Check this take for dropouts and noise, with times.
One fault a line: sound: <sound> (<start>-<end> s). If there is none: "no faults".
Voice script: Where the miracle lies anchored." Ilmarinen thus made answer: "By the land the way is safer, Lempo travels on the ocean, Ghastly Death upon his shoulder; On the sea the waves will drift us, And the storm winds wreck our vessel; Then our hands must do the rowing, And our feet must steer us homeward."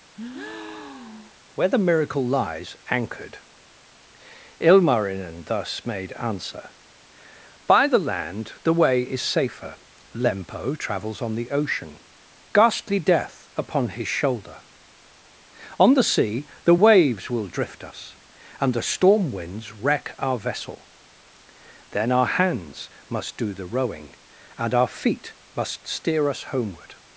sound: breath (0.1-1.4 s)